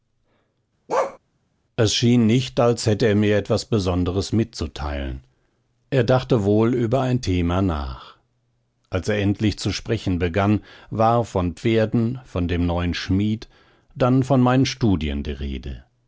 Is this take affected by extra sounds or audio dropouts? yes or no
yes